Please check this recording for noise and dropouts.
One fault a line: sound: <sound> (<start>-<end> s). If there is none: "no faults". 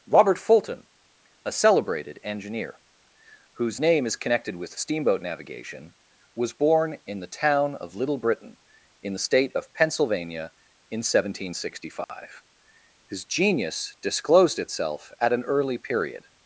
sound: dropout (12.0-12.1 s)